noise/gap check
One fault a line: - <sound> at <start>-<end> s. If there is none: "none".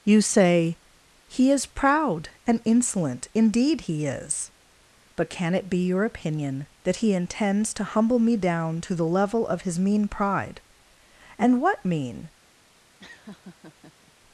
- laugh at 13.0-14.1 s